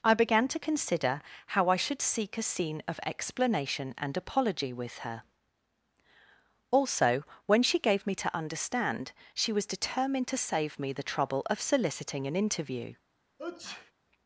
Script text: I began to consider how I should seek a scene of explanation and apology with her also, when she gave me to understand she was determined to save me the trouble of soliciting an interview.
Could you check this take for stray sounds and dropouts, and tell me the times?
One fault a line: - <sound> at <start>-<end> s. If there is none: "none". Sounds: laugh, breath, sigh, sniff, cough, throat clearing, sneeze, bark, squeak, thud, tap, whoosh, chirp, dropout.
- sneeze at 13.4-13.9 s